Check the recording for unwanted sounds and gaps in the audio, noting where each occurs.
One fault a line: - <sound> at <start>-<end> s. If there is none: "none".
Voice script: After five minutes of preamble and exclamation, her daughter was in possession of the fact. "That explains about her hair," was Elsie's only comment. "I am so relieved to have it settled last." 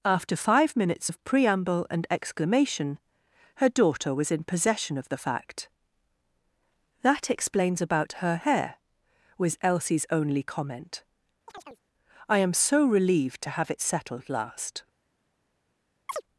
- chirp at 11.5-11.8 s
- chirp at 16.1-16.2 s